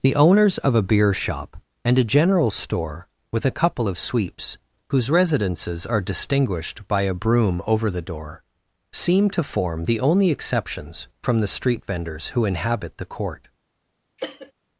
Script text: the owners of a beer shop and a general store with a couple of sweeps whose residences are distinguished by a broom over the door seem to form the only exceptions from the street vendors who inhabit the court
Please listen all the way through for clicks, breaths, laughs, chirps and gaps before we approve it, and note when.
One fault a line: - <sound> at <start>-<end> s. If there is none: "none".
- cough at 14.2-14.5 s